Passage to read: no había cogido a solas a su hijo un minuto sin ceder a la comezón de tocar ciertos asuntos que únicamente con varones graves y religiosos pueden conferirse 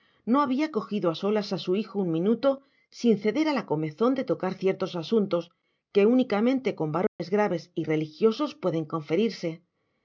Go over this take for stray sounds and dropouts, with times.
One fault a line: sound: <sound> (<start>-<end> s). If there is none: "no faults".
sound: dropout (7.1-7.2 s)